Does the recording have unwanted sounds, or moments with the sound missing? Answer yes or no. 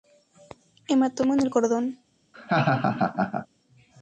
yes